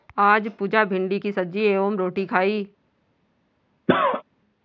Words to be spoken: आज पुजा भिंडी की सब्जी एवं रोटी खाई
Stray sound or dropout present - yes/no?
yes